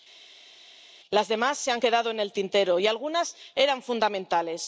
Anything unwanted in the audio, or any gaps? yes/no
no